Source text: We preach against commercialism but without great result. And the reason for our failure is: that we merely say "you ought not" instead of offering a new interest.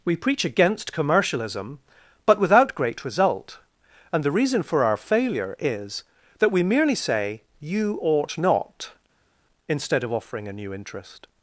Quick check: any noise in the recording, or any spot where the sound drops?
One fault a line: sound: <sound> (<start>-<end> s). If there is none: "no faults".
no faults